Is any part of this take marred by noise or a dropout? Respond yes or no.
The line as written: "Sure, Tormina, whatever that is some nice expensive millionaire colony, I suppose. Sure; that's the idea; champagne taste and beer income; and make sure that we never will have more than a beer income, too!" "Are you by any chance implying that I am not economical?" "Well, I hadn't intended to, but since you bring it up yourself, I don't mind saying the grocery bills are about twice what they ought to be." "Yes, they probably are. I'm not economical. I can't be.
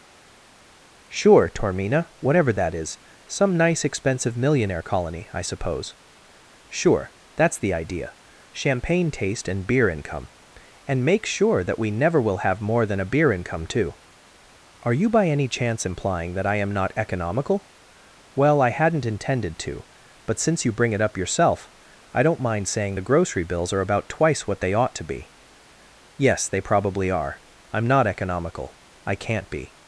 no